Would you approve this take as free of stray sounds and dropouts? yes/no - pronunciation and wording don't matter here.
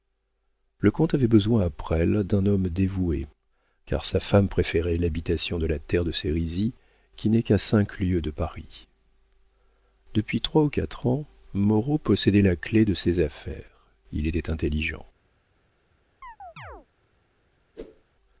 no